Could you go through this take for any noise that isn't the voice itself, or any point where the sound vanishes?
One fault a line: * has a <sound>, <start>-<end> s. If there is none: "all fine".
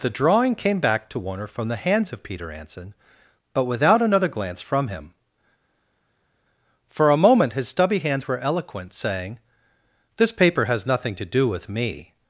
all fine